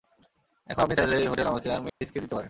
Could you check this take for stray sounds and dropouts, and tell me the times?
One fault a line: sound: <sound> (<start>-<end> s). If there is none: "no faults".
sound: dropout (1.9-2.0 s)